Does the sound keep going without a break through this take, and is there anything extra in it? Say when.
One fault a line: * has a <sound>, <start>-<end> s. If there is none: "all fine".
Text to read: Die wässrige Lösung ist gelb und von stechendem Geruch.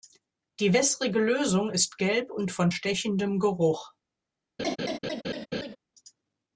* has a laugh, 4.6-5.8 s